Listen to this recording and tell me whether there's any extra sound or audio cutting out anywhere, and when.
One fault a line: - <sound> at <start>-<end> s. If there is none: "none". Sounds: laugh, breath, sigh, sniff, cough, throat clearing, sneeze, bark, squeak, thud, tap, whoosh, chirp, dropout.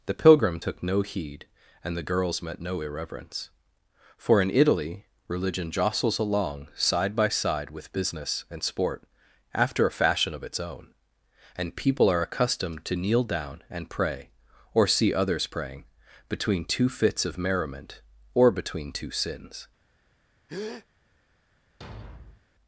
- breath at 20.5-20.9 s
- thud at 21.8-22.5 s